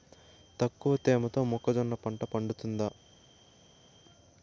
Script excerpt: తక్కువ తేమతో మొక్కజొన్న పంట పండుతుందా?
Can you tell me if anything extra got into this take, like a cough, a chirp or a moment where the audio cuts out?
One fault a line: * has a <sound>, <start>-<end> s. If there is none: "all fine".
all fine